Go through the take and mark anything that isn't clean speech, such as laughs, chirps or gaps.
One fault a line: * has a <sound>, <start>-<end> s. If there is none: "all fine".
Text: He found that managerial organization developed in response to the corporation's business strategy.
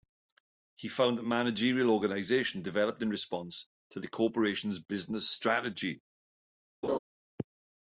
* has a laugh, 6.8-7.0 s